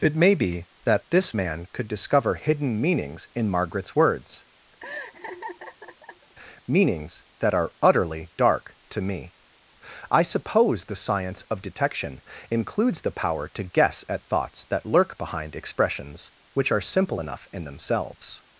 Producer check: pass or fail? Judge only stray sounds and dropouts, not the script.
fail